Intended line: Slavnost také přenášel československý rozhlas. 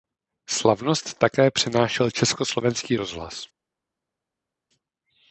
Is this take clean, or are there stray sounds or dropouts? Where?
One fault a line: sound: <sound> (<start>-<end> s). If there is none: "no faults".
no faults